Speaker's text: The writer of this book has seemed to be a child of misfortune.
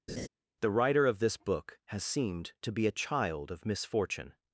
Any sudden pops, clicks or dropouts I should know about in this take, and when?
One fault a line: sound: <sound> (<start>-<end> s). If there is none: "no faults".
sound: laugh (0.1-0.3 s)